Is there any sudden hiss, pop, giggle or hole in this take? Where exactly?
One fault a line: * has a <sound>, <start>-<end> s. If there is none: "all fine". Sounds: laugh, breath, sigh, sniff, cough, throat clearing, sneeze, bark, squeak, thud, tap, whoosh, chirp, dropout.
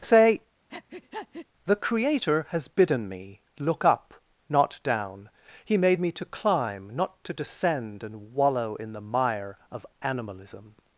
* has a breath, 0.7-1.5 s